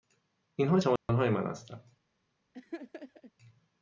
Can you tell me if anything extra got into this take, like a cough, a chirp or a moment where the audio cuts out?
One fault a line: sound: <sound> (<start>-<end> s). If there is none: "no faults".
sound: dropout (1.0-1.1 s)
sound: laugh (2.5-3.3 s)